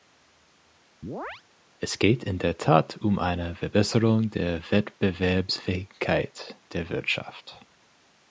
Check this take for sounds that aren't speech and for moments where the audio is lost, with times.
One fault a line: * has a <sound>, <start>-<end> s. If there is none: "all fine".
* has a chirp, 1.0-1.4 s